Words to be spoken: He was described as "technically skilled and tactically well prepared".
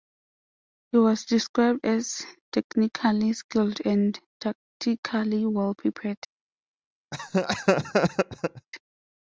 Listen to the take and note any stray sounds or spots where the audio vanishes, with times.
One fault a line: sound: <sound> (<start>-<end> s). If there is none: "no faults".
sound: laugh (7.1-8.7 s)